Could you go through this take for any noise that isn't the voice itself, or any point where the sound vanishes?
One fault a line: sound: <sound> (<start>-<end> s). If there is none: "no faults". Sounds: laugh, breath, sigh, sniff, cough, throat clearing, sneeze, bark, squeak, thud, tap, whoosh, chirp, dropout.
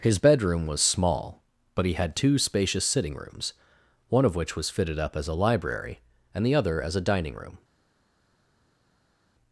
no faults